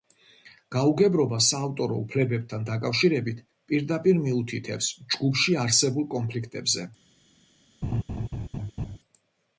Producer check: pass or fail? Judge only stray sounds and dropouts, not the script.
fail